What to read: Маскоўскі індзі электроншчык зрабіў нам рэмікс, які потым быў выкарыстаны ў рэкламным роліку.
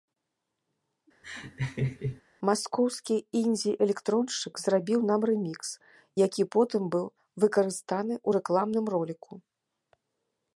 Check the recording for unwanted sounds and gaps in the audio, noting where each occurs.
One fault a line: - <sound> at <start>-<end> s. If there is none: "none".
- laugh at 1.2-2.2 s